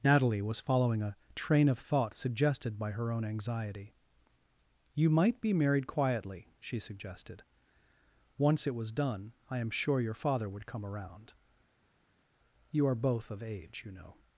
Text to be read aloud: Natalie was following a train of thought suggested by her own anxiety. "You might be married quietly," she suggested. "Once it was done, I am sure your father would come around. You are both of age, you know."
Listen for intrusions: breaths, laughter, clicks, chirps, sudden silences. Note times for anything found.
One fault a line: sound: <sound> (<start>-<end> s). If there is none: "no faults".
no faults